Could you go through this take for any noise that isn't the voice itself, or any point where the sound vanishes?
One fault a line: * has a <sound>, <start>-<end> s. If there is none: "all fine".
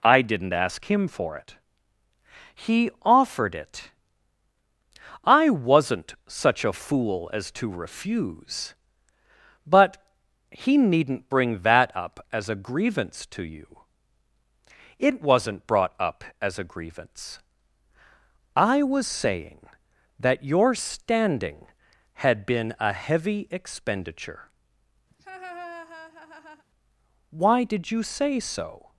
* has a laugh, 25.1-26.7 s